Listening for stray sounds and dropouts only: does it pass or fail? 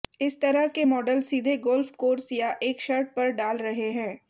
pass